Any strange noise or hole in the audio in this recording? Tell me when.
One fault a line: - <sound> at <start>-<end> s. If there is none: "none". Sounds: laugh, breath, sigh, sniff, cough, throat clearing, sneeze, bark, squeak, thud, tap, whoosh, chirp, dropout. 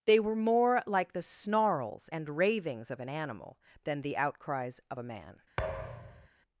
- thud at 5.6-6.3 s